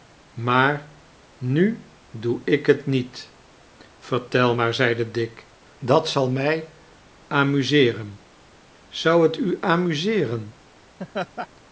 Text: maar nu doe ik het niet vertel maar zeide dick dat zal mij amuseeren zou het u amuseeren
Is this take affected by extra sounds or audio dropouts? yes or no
yes